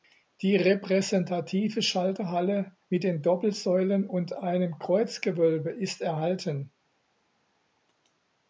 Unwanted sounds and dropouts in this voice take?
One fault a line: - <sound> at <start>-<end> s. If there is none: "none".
none